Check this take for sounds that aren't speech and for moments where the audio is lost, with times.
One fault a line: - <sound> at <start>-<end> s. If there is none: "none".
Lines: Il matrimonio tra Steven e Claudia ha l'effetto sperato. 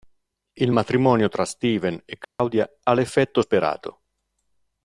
- dropout at 2.2-2.4 s